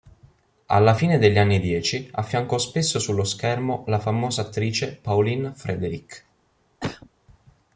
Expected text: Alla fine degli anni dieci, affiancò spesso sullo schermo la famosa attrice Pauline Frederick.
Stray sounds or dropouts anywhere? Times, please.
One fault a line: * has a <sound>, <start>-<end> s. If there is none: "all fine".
* has a cough, 6.8-7.1 s